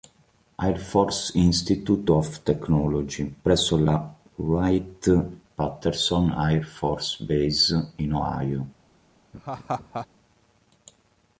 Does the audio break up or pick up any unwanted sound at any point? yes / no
yes